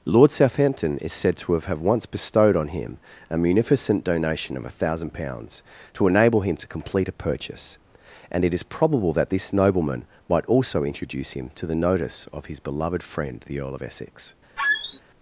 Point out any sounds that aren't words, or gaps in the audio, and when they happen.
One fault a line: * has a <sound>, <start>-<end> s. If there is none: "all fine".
* has a squeak, 14.6-15.0 s